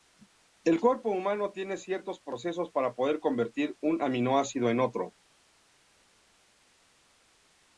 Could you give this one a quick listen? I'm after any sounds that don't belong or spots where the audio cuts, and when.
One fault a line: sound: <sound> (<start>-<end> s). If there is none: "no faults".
no faults